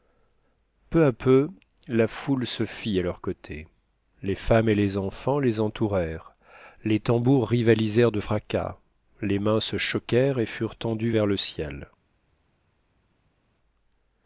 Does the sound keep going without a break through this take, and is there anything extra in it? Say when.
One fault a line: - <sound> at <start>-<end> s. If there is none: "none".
none